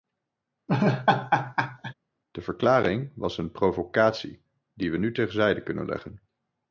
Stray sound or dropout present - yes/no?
yes